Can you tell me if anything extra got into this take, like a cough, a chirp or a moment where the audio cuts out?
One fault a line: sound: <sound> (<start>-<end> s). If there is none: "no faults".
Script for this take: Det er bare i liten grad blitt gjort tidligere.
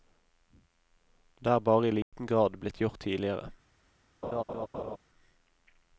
sound: dropout (2.0-2.1 s)
sound: laugh (4.2-5.0 s)